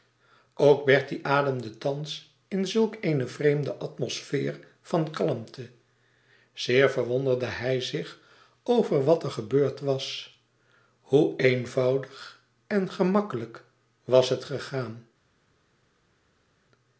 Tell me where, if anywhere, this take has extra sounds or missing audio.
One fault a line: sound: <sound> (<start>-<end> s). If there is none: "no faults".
no faults